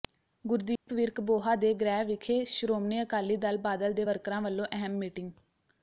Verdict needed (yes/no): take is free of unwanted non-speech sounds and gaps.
no